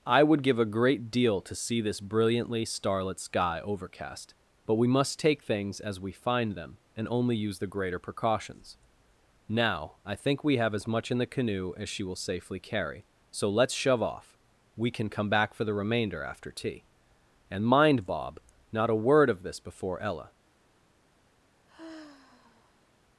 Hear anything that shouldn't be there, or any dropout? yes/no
yes